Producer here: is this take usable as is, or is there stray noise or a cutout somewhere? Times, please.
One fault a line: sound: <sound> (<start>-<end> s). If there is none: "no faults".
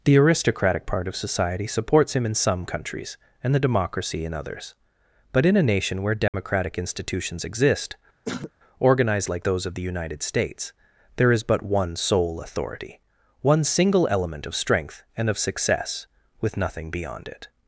sound: dropout (6.3-6.3 s)
sound: throat clearing (8.3-8.5 s)